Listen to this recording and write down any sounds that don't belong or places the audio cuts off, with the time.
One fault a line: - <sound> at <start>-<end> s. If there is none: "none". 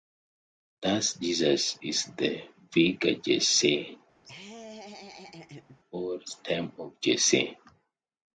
- laugh at 4.2-5.8 s